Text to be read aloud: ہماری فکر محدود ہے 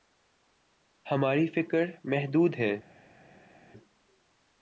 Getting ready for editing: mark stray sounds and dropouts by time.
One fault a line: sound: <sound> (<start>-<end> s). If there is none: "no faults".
no faults